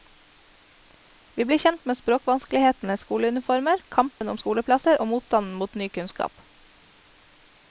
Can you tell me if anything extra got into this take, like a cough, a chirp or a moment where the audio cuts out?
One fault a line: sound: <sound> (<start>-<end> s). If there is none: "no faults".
sound: dropout (4.2-4.2 s)